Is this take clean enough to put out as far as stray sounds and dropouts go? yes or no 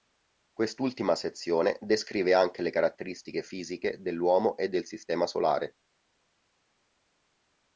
yes